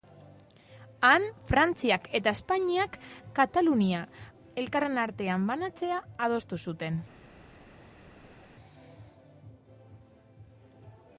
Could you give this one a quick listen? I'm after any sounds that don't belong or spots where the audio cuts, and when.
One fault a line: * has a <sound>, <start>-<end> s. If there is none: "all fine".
all fine